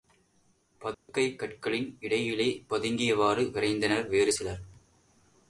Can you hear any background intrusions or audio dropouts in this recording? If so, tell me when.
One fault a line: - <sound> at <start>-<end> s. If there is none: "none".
- dropout at 0.9-1.1 s